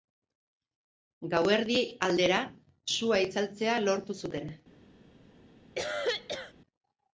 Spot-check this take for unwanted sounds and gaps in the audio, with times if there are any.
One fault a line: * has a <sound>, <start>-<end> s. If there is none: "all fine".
* has a cough, 5.8-6.5 s